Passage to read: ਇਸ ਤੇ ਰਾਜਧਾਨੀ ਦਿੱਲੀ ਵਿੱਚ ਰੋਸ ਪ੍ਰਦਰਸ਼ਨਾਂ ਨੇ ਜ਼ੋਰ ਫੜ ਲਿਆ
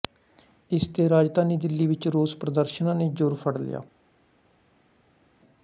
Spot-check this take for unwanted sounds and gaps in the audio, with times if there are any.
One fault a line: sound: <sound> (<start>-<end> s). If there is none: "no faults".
no faults